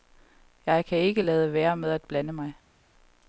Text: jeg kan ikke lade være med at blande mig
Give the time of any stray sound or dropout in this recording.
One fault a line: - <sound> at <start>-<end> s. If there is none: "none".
none